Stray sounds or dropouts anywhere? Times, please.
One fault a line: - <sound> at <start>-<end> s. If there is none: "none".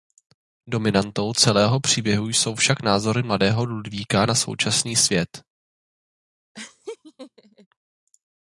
- laugh at 6.5-7.7 s